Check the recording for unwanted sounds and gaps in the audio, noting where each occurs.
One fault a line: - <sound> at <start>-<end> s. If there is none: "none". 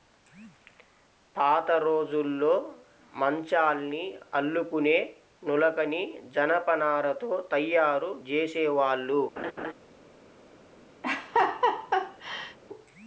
- laugh at 9.4-9.7 s
- laugh at 11.0-12.6 s